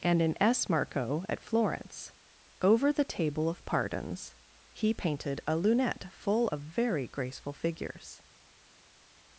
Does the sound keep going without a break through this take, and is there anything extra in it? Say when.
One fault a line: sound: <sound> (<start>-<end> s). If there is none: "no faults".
no faults